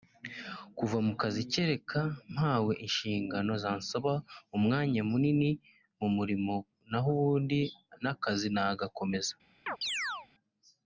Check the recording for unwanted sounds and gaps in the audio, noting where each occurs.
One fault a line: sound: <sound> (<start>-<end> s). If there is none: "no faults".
sound: chirp (9.7-10.3 s)